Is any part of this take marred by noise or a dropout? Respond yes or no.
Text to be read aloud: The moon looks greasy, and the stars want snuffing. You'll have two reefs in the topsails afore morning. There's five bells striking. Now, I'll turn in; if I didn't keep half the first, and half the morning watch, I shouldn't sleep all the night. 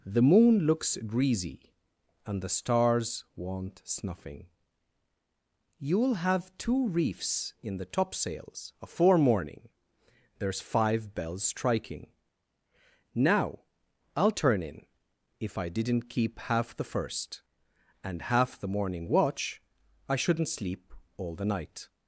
no